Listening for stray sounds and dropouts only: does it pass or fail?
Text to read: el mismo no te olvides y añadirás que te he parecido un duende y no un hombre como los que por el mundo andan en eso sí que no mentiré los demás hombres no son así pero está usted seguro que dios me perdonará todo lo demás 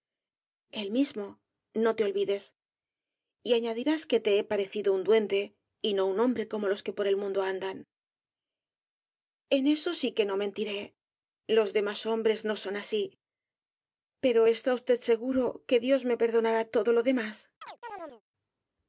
fail